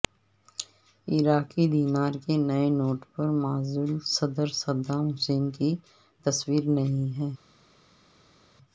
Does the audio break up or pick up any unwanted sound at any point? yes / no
no